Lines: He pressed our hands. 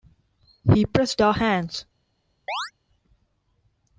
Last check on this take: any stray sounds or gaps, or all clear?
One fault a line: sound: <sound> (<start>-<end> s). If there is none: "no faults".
sound: chirp (2.5-2.7 s)